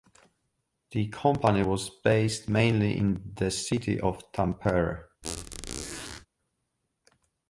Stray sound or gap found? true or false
true